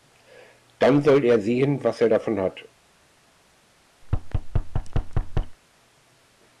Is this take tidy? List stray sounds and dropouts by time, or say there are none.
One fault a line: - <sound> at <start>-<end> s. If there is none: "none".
- thud at 4.0-5.6 s